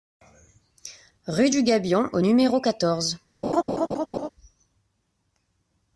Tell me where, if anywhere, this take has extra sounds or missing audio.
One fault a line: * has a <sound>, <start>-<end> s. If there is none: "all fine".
* has a laugh, 3.4-4.3 s